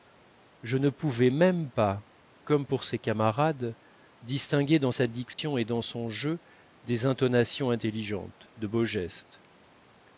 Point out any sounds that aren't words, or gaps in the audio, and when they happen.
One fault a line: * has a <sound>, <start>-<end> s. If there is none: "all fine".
* has a dropout, 5.3-5.4 s